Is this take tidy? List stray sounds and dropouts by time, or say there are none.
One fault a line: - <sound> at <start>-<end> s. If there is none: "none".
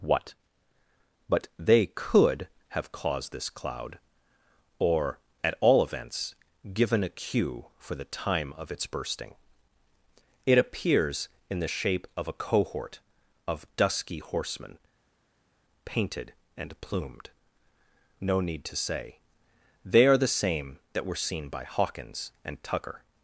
none